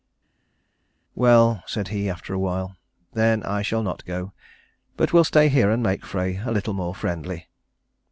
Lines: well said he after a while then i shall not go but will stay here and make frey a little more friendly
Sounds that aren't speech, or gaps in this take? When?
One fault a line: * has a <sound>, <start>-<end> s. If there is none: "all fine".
all fine